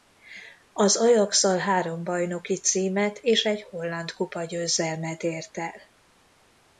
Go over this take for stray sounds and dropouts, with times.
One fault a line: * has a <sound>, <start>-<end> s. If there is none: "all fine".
all fine